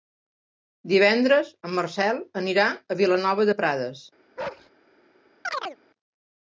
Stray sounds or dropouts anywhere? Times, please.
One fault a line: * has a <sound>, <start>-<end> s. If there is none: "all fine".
* has a bark, 4.4-4.7 s
* has a chirp, 5.4-5.8 s